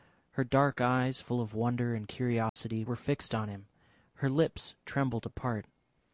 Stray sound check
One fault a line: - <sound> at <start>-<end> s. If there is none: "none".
- dropout at 2.5-2.6 s